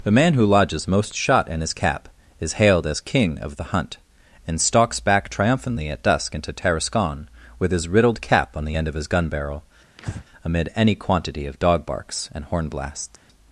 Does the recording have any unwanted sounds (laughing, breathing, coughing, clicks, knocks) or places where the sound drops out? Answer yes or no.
yes